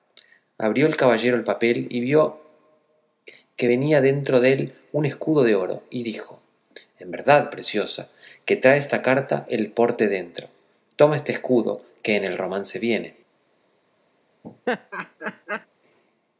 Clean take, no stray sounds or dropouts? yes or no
no